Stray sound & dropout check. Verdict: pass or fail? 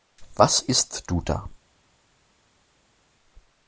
pass